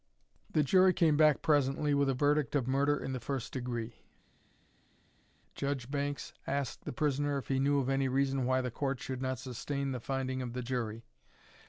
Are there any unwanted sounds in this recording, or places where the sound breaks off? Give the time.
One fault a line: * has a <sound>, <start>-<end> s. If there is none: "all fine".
all fine